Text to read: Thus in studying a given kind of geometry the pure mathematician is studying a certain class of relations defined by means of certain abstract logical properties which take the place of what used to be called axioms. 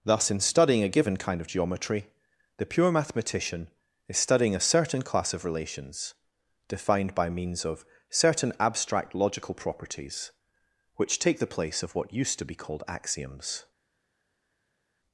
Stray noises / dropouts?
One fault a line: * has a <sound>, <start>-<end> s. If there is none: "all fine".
all fine